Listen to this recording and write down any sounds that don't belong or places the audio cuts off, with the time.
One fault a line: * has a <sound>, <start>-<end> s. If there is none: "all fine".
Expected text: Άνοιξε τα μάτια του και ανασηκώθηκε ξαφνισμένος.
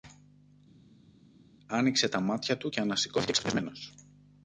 all fine